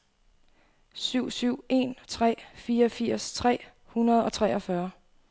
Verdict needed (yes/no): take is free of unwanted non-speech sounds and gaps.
yes